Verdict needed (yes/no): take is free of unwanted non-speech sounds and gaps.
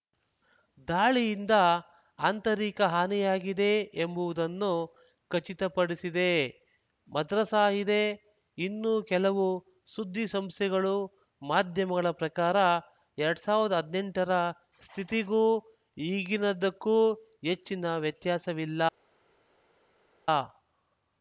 yes